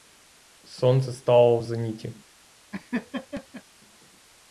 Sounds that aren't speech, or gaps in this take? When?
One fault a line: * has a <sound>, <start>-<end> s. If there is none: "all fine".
* has a laugh, 2.7-3.6 s